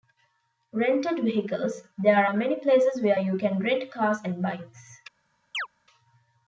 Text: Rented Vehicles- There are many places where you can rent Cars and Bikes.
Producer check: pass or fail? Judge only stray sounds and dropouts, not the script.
fail